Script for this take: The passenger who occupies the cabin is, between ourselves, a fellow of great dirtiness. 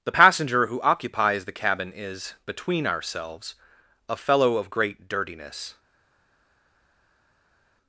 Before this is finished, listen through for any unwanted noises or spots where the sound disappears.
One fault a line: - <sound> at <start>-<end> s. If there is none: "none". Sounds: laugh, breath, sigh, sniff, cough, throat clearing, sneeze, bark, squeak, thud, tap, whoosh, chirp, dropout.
none